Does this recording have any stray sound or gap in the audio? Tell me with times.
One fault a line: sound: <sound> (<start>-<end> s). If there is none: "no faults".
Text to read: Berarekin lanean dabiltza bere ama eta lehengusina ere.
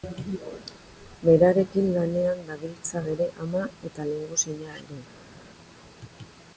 no faults